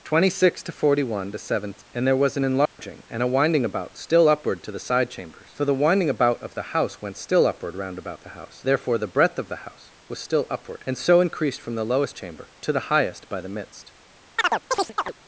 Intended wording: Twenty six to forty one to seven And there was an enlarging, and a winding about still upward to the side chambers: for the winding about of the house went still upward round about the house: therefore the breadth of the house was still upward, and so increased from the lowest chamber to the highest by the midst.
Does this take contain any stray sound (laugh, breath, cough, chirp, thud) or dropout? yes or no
yes